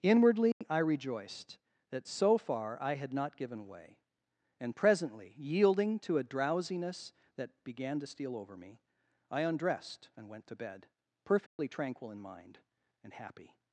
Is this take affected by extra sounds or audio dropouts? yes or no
yes